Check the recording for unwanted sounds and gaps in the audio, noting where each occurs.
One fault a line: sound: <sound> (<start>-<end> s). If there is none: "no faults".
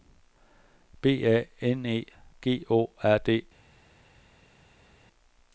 no faults